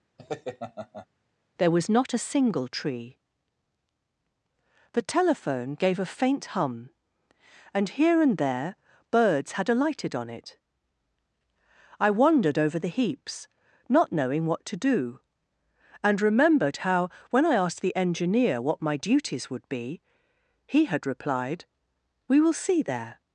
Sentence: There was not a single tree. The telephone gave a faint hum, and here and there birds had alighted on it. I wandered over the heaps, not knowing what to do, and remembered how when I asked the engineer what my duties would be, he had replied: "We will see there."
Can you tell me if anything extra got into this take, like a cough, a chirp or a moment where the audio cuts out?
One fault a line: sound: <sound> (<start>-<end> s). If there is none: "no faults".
sound: laugh (0.2-1.1 s)